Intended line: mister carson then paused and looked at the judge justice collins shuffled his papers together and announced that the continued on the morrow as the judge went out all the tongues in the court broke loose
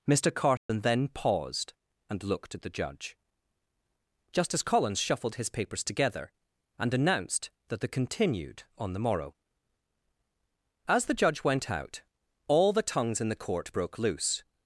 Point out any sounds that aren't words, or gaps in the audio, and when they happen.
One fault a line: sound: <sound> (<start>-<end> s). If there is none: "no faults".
sound: dropout (0.6-0.7 s)